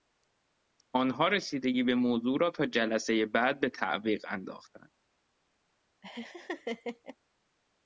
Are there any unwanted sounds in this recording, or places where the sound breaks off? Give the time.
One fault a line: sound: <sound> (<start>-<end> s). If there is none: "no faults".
sound: laugh (6.0-7.2 s)